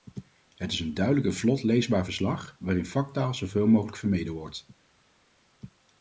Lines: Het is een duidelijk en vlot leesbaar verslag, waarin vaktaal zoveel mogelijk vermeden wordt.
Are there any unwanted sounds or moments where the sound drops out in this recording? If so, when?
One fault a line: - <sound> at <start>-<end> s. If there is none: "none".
none